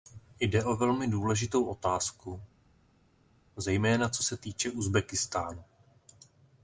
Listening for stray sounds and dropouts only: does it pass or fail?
pass